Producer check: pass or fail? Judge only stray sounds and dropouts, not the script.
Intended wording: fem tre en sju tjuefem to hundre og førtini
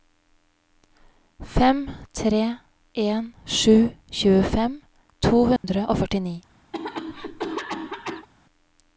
fail